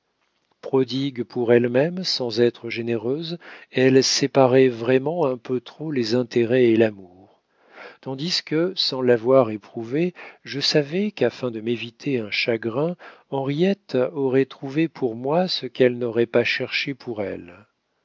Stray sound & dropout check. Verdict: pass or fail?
pass